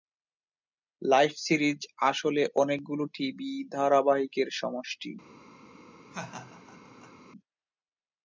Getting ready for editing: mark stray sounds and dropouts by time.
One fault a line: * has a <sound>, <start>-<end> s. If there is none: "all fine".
* has a laugh, 6.1-7.1 s